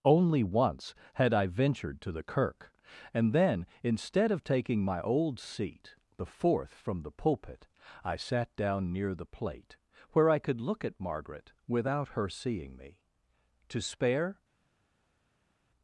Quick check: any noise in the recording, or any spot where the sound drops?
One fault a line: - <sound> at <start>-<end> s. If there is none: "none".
none